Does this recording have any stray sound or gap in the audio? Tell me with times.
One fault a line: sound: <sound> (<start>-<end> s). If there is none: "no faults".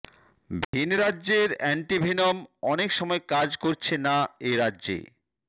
sound: dropout (0.6-0.7 s)